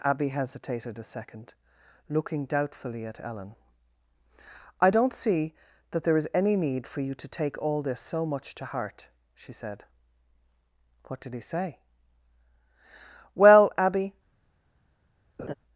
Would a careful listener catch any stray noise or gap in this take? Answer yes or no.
yes